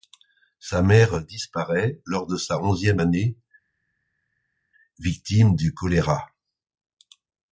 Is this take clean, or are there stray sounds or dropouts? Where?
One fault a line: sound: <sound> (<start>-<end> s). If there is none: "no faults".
no faults